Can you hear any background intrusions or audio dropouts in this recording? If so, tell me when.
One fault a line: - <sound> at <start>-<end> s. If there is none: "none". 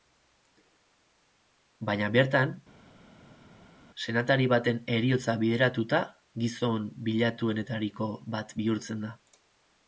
none